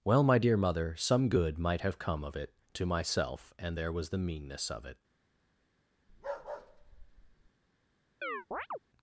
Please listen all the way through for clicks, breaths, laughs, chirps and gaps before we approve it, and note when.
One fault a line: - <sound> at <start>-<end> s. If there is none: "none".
- bark at 6.1-7.5 s
- chirp at 8.2-8.8 s